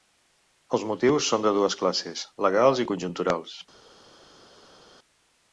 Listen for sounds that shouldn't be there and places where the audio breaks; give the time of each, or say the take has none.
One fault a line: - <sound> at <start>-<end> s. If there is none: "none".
none